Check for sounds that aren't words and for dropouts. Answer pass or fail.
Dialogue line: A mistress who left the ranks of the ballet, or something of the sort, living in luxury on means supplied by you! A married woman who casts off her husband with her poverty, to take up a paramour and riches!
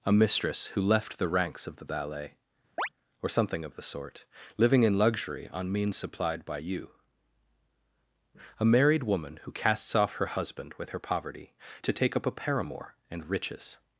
fail